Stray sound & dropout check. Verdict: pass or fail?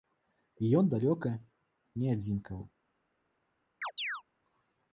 fail